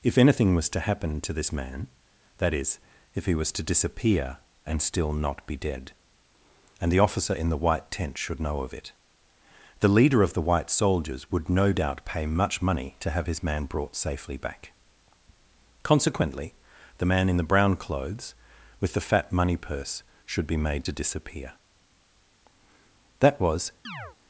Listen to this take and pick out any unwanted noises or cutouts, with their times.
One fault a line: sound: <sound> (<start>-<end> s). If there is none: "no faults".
sound: chirp (23.8-24.2 s)